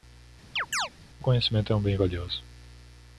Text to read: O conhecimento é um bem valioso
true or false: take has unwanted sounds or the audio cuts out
true